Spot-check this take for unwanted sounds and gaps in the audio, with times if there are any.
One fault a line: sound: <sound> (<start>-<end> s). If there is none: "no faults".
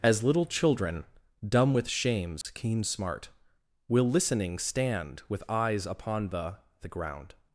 sound: dropout (2.4-2.4 s)